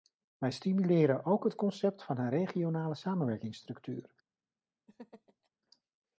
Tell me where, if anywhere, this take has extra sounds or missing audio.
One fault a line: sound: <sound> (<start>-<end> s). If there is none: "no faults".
sound: laugh (4.9-5.5 s)